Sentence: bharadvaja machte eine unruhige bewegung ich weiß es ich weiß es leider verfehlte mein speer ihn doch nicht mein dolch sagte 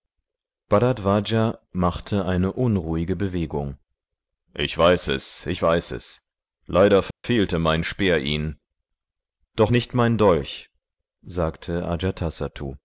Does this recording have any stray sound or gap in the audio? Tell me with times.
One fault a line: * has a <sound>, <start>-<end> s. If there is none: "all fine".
* has a dropout, 7.1-7.2 s